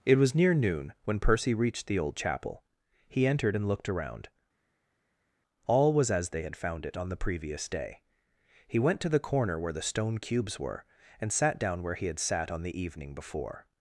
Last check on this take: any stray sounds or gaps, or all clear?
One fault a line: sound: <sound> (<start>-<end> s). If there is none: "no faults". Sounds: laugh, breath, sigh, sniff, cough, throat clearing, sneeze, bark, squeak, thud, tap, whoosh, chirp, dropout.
no faults